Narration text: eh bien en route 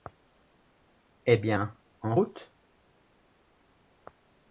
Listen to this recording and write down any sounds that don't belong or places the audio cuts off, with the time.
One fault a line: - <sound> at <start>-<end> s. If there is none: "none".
none